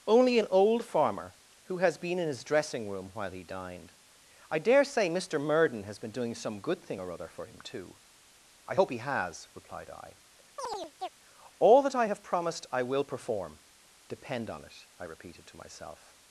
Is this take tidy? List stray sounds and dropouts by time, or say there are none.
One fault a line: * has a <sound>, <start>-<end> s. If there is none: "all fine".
* has a chirp, 10.6-11.1 s